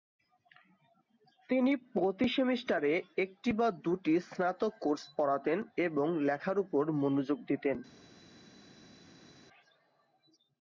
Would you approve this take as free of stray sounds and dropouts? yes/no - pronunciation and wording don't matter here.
yes